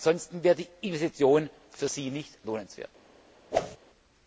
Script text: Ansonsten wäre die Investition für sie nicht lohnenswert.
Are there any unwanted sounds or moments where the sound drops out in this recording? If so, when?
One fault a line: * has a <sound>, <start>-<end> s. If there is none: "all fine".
* has a whoosh, 3.5-3.8 s